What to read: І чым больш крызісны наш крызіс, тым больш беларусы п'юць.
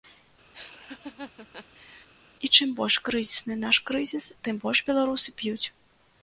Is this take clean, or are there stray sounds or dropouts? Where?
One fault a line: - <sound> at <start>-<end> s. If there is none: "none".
- laugh at 0.5-2.1 s